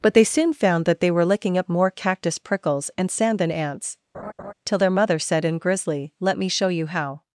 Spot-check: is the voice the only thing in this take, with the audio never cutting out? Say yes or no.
no